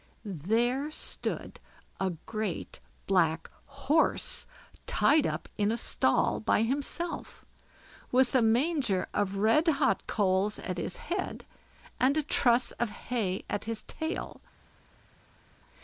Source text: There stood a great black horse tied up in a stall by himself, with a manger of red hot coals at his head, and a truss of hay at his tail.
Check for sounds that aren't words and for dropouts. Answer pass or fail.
pass